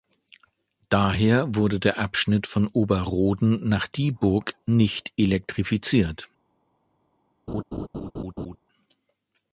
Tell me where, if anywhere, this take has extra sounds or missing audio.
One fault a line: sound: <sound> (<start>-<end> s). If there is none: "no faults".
sound: laugh (7.5-8.6 s)